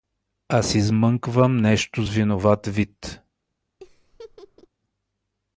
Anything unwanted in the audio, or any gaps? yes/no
yes